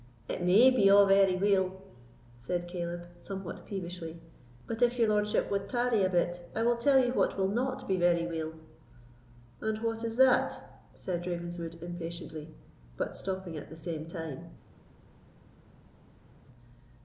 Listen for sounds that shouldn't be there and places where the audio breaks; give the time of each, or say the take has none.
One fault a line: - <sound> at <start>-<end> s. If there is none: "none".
none